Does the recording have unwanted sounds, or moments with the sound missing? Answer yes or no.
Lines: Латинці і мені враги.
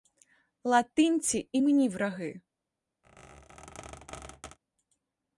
yes